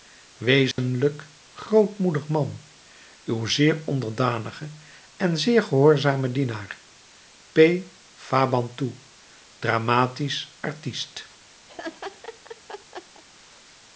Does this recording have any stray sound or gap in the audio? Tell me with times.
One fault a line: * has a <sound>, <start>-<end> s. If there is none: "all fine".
* has a dropout, 0.7-0.8 s
* has a laugh, 11.7-13.2 s